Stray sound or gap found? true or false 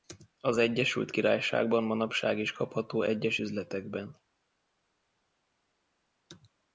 false